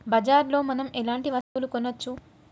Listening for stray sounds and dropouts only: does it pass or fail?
fail